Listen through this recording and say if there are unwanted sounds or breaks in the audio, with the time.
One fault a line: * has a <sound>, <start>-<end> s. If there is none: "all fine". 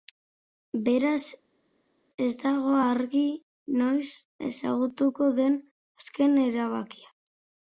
all fine